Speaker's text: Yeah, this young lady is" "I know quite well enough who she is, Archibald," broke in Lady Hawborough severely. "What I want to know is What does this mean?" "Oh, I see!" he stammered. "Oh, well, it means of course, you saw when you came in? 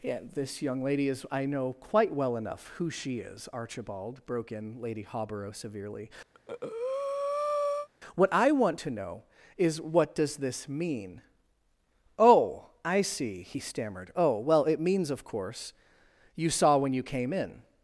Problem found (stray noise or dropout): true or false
true